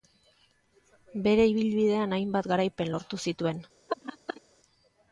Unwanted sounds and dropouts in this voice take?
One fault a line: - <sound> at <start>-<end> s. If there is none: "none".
- laugh at 3.9-4.4 s